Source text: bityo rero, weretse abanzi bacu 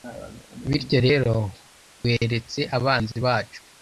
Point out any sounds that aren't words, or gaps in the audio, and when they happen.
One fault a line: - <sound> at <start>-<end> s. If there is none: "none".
none